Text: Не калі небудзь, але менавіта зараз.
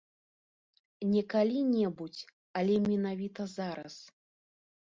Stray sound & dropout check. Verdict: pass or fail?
pass